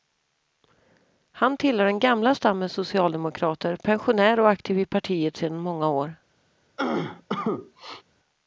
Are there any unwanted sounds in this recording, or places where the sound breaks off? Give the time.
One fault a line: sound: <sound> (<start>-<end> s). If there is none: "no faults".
sound: cough (6.8-8.0 s)